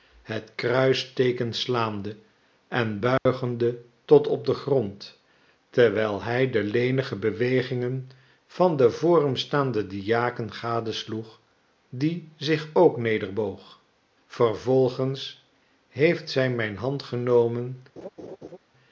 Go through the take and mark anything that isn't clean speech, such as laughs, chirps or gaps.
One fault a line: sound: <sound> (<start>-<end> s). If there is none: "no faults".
sound: dropout (3.2-3.3 s)
sound: laugh (18.0-18.6 s)